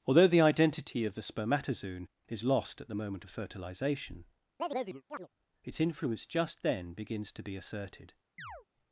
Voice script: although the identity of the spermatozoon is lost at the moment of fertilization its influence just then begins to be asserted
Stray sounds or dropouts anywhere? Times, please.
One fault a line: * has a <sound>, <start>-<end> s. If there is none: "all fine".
* has a chirp, 4.6-5.3 s
* has a chirp, 8.4-8.7 s